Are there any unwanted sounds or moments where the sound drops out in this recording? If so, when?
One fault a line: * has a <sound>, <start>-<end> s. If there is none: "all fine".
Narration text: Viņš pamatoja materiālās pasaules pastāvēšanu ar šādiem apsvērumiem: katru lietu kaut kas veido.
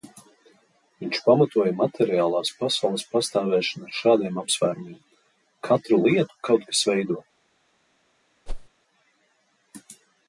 * has a whoosh, 8.5-8.7 s